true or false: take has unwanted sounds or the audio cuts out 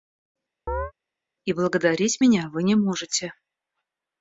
true